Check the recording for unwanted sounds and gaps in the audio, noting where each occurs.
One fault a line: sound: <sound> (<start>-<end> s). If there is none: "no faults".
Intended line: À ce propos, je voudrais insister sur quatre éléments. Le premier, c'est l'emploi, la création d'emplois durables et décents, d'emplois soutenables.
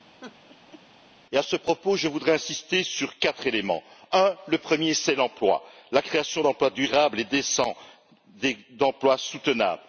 sound: laugh (0.2-0.8 s)